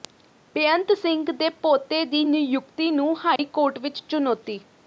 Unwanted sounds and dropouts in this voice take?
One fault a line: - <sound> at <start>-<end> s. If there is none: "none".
- dropout at 3.4-3.4 s